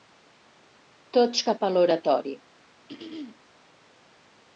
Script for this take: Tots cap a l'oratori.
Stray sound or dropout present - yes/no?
yes